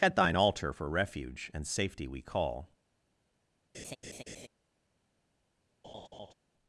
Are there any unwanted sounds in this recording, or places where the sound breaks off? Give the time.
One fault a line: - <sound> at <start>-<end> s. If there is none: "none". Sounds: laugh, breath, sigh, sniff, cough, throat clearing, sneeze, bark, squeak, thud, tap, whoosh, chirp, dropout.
- laugh at 3.7-4.5 s
- laugh at 5.8-6.3 s